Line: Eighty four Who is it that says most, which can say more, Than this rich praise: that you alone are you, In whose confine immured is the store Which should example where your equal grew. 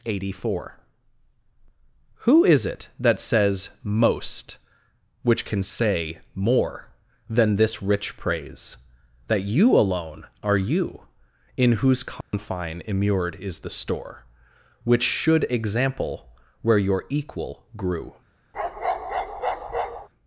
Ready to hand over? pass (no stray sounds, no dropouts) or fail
fail